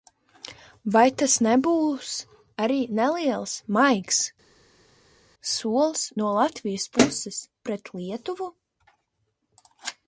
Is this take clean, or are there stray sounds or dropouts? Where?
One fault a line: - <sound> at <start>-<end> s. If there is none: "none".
none